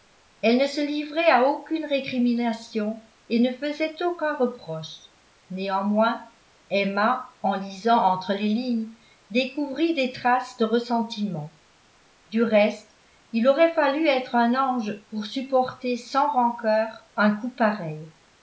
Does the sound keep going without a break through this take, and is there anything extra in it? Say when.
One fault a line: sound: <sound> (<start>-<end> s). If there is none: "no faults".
no faults